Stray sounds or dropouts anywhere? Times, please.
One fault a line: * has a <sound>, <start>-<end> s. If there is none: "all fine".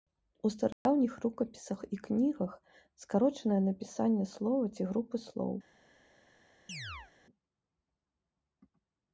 * has a dropout, 0.7-0.9 s
* has a chirp, 6.7-7.1 s